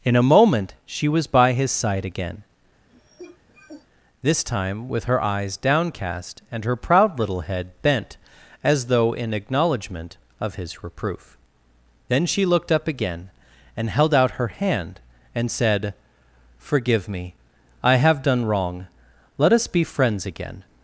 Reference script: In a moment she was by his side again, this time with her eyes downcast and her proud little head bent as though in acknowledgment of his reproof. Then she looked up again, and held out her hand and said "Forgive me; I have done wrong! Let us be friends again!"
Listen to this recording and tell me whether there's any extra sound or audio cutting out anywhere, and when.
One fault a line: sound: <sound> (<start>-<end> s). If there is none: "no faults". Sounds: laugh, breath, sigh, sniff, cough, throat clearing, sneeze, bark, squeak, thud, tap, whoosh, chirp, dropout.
sound: cough (2.9-3.9 s)